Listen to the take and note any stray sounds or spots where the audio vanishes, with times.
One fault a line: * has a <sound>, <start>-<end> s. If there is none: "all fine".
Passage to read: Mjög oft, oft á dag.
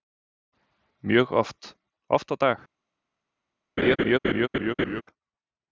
* has a laugh, 3.8-5.0 s